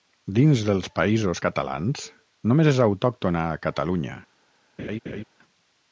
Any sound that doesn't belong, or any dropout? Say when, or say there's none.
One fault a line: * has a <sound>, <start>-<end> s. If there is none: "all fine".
* has a laugh, 4.8-5.2 s